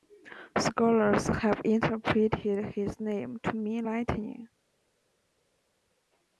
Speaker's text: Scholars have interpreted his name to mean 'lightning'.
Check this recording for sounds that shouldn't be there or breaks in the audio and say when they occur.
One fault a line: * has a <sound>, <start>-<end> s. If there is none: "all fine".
all fine